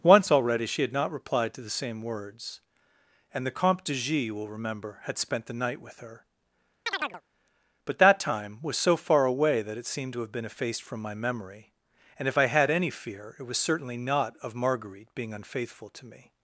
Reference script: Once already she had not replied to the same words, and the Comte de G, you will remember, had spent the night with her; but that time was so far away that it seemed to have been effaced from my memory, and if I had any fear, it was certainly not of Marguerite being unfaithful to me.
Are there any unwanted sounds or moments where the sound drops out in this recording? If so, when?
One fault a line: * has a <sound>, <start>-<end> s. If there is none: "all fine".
* has a chirp, 6.9-7.2 s